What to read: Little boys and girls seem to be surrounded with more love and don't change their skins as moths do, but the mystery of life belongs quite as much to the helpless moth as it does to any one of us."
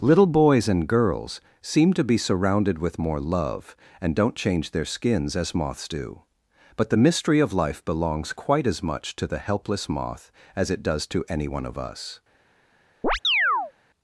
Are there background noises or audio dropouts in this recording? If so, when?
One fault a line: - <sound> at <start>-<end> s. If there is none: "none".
- chirp at 13.0-13.7 s